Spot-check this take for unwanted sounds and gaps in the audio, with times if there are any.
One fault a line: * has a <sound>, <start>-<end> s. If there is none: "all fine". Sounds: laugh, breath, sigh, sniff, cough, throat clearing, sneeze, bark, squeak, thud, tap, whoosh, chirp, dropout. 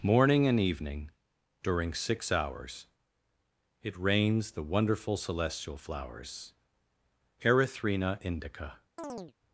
* has a chirp, 9.0-9.3 s